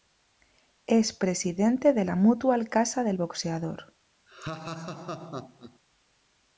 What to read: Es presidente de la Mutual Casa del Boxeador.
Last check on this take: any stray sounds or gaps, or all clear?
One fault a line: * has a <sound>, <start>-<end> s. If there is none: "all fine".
* has a laugh, 4.3-5.8 s